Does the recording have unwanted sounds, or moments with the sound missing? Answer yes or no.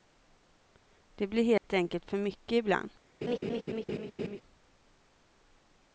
yes